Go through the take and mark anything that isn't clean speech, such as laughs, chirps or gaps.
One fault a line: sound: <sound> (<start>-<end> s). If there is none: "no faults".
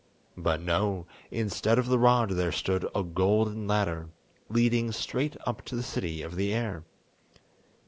no faults